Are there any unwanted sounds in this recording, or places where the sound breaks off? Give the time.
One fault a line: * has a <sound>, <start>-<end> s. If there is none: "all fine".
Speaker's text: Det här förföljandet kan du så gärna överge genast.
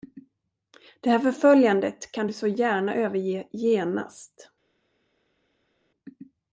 all fine